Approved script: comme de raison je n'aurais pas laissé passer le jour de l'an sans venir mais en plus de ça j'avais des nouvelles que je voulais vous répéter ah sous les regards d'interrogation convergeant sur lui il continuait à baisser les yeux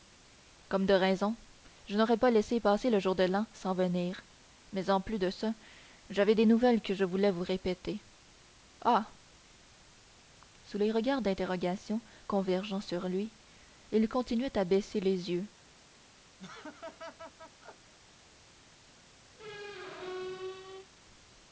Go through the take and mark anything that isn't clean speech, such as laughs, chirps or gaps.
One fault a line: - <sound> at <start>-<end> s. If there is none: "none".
- laugh at 16.4-17.9 s
- squeak at 19.3-20.9 s